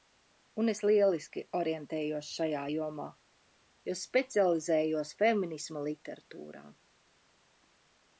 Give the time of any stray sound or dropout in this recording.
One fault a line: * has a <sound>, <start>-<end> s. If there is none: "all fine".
all fine